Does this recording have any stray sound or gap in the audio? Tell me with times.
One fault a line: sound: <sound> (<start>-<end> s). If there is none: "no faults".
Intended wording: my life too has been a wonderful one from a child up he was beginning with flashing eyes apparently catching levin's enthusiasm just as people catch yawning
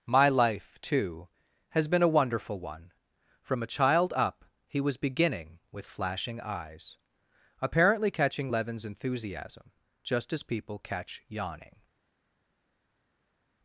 no faults